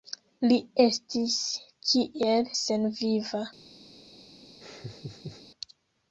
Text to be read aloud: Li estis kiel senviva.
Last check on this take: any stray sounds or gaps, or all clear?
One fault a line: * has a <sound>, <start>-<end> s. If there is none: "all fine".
* has a laugh, 4.6-5.4 s